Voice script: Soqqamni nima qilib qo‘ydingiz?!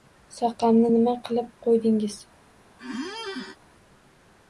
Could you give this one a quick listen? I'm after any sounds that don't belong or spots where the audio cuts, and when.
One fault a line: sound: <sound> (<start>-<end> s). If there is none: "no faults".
sound: squeak (2.8-3.6 s)